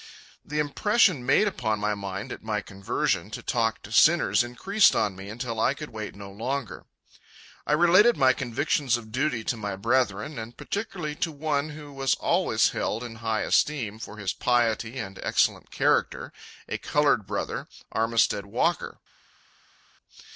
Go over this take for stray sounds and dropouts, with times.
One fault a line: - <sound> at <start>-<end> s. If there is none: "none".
none